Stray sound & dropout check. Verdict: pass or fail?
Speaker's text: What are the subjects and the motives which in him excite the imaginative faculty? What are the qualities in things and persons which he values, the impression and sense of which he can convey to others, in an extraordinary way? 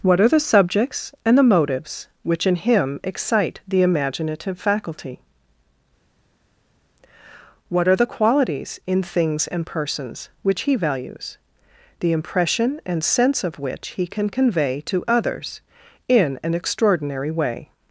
pass